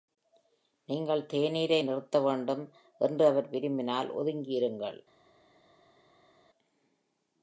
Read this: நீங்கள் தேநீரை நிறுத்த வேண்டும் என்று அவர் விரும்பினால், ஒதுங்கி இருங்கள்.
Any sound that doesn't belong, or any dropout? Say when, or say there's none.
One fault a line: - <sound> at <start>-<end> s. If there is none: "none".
none